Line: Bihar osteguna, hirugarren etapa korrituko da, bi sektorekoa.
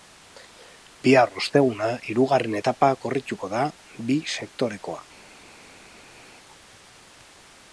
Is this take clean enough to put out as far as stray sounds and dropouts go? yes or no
yes